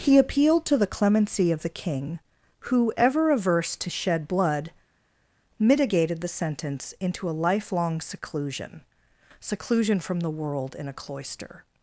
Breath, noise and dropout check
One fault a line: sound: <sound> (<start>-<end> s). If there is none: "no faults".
no faults